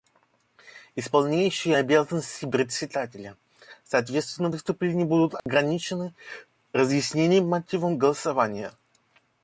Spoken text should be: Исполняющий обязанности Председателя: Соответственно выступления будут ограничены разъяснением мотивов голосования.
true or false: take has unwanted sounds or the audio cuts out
true